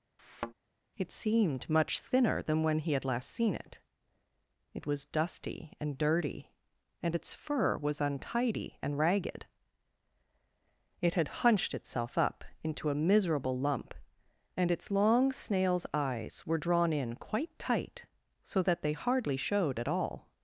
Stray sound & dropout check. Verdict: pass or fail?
fail